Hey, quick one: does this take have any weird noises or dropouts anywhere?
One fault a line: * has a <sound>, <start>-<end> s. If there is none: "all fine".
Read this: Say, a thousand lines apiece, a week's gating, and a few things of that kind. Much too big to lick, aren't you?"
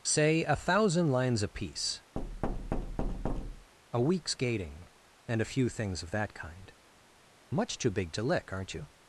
* has a thud, 2.2-3.7 s